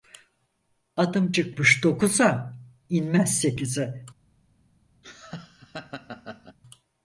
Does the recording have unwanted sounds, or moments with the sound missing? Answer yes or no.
yes